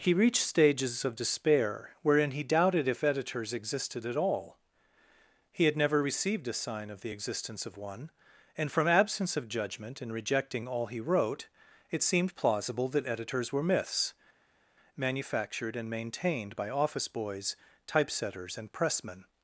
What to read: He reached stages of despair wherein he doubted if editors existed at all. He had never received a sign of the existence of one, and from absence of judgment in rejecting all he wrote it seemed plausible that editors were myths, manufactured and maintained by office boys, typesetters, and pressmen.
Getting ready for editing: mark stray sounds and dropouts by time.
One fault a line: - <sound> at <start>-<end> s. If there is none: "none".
none